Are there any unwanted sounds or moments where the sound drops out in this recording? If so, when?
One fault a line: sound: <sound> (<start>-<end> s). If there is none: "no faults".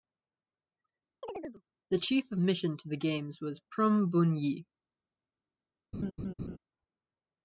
sound: chirp (1.2-1.6 s)
sound: laugh (5.9-6.6 s)